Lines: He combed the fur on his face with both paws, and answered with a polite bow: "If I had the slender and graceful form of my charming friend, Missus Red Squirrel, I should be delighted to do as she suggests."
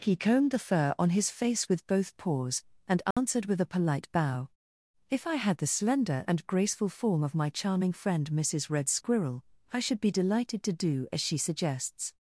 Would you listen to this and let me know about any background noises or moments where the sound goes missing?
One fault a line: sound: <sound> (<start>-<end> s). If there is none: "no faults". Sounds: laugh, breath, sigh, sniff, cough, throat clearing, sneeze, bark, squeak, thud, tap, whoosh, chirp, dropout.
sound: dropout (3.1-3.2 s)